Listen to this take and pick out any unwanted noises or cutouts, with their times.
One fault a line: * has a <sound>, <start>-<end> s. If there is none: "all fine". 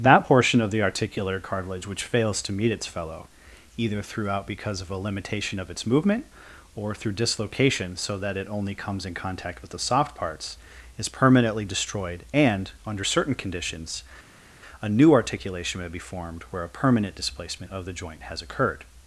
all fine